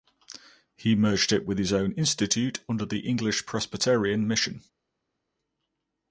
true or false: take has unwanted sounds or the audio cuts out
false